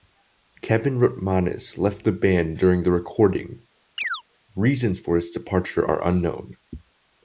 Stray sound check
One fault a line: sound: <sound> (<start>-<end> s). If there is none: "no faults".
sound: chirp (4.0-4.2 s)